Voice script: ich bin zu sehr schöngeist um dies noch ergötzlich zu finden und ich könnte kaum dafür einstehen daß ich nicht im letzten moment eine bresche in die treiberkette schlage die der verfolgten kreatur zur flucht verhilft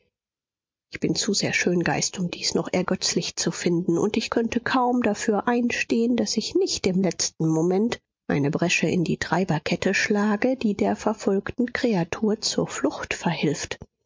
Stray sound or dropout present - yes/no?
no